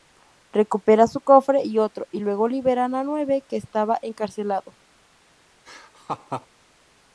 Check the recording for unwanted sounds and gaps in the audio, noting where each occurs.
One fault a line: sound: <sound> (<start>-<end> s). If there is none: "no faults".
sound: laugh (5.6-6.5 s)